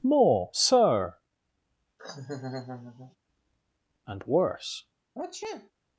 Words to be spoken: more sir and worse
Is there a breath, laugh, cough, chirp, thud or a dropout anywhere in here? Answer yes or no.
yes